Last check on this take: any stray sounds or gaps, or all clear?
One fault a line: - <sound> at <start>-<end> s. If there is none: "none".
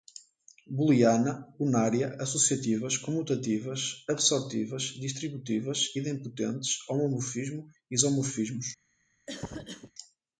- cough at 9.3-9.9 s